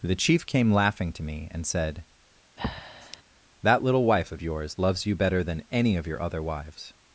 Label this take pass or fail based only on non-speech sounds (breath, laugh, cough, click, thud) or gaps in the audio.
fail